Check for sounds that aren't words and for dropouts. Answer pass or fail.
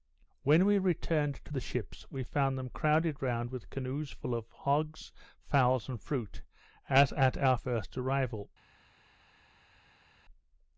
pass